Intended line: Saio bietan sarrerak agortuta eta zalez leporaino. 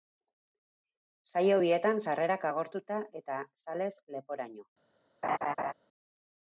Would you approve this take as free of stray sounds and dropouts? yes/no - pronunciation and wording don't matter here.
no